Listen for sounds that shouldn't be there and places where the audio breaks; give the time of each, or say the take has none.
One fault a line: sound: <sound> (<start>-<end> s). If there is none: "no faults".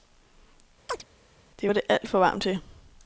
sound: chirp (0.9-1.0 s)